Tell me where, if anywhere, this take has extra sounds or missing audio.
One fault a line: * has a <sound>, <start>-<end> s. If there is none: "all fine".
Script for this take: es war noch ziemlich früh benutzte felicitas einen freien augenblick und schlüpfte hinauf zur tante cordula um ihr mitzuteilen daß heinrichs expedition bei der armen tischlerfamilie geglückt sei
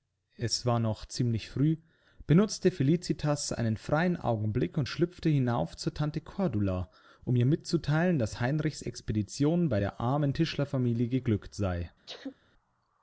* has a sneeze, 12.1-12.4 s